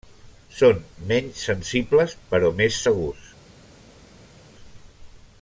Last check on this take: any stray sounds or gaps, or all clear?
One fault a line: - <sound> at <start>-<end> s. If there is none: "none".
none